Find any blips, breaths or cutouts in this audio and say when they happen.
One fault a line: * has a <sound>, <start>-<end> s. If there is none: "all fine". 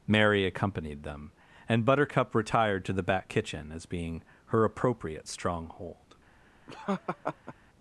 * has a laugh, 6.7-7.5 s